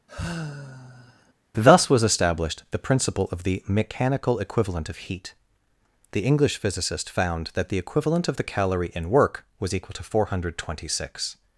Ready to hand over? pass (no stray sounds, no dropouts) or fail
fail